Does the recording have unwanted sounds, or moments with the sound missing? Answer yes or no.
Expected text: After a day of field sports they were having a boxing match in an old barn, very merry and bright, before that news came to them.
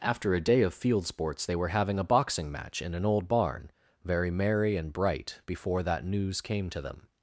no